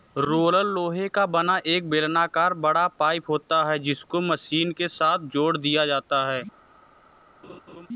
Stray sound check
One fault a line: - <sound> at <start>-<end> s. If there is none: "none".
- laugh at 7.4-7.9 s